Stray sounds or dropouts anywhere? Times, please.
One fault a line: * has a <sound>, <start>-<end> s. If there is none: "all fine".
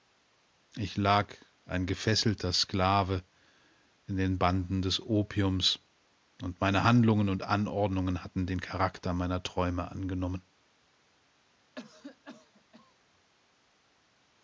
* has a cough, 11.8-12.9 s